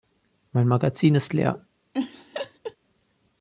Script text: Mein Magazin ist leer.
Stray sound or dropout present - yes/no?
yes